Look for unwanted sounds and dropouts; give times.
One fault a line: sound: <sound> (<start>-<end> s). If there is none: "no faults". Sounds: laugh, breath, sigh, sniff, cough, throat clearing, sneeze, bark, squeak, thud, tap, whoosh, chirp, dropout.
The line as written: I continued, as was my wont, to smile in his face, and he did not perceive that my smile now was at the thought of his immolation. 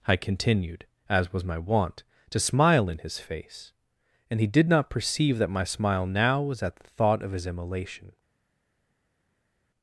no faults